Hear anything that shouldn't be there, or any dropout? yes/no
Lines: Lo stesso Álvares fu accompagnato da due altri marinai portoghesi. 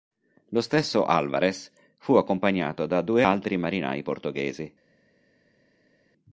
no